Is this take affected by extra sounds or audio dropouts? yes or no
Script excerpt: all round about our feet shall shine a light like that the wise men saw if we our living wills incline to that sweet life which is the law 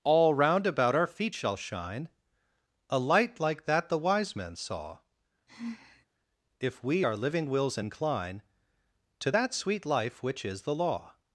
yes